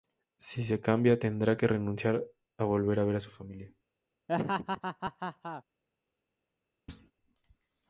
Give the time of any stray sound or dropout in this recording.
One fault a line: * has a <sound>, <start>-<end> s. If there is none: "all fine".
* has a laugh, 4.3-5.6 s
* has a thud, 6.9-7.1 s